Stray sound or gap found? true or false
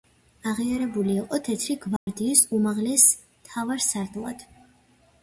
true